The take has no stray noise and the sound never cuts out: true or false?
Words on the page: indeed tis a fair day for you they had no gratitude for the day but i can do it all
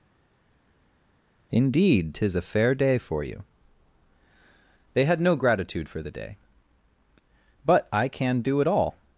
true